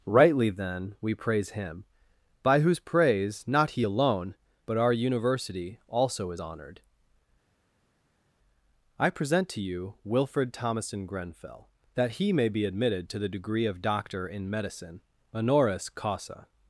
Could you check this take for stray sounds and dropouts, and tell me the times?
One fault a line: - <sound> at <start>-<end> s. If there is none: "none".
none